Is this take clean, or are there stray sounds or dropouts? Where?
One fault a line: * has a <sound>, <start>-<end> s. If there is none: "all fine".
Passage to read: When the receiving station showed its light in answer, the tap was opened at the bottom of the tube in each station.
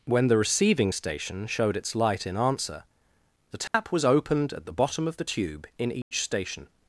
* has a dropout, 3.7-3.7 s
* has a dropout, 6.0-6.1 s